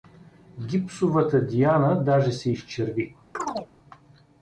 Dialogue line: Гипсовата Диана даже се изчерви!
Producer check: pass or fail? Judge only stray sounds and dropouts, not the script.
fail